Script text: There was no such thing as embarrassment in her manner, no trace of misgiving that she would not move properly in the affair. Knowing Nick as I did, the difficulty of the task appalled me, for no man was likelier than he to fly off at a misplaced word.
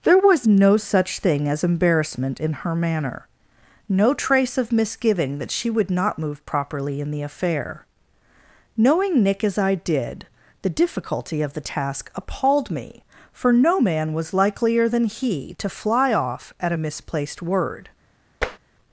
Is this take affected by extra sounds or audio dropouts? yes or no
yes